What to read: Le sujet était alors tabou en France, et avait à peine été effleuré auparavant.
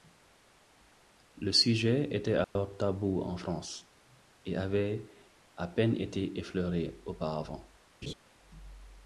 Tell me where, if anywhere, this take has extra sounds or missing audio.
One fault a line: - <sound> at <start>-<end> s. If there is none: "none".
- dropout at 2.4-2.6 s
- laugh at 8.0-8.1 s